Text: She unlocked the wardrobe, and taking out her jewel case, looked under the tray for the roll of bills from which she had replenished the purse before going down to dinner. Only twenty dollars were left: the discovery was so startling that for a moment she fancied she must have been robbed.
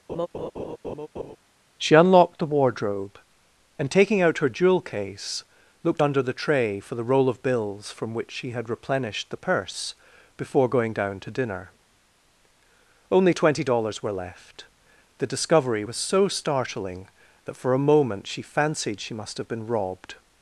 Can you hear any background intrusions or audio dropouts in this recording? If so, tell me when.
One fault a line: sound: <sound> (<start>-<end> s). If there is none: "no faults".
sound: laugh (0.1-1.4 s)